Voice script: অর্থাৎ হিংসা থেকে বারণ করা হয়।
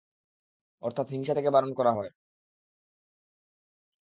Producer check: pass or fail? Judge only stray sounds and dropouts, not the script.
pass